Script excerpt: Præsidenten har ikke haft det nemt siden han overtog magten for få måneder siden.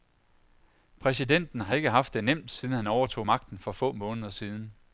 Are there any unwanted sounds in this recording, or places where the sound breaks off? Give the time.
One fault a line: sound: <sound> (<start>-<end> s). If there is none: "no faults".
no faults